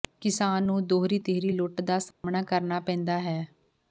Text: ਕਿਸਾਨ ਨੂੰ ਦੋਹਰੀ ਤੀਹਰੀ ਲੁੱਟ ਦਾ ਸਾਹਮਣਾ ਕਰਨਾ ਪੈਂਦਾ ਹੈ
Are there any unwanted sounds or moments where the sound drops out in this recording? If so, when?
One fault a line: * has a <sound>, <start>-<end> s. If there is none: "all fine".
* has a dropout, 2.1-2.2 s